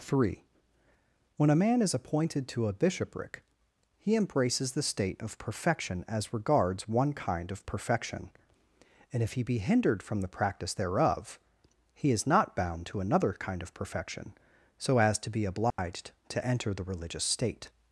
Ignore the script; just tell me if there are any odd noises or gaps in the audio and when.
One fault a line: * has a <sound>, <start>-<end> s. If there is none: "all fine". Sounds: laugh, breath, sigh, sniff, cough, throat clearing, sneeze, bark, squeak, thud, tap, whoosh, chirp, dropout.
* has a dropout, 15.7-15.8 s